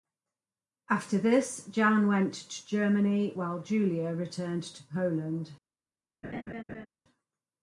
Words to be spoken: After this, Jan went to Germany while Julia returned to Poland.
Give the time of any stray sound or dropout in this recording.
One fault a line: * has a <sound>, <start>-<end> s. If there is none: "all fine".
* has a laugh, 6.2-6.9 s